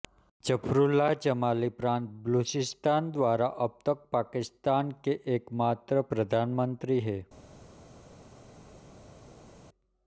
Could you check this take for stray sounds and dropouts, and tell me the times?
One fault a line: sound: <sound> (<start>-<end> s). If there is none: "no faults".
no faults